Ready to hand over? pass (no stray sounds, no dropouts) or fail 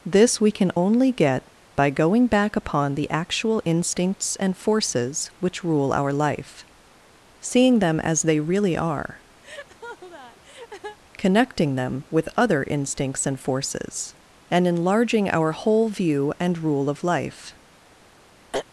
fail